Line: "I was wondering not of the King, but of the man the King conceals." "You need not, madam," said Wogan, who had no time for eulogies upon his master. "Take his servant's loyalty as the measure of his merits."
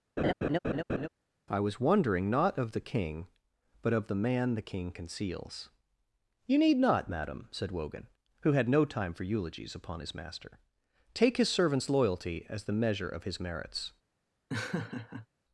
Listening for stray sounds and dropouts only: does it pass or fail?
fail